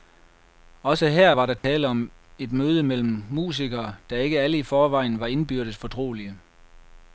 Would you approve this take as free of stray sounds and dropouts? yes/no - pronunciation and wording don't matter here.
no